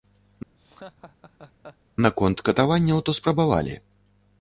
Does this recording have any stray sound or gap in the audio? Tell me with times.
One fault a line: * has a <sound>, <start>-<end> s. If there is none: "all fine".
* has a laugh, 0.6-1.8 s